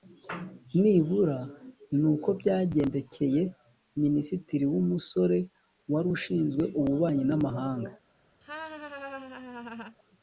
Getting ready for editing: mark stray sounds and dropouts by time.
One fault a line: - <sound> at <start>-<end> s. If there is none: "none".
- laugh at 8.4-10.0 s